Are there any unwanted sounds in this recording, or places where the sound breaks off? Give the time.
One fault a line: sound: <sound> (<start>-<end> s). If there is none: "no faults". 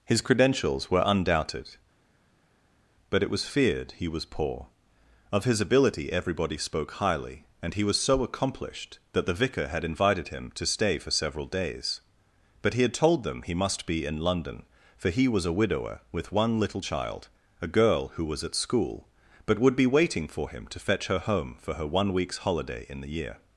no faults